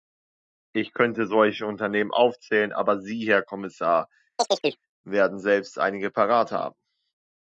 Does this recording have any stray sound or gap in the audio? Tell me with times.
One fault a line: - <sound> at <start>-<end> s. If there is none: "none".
- chirp at 4.4-4.8 s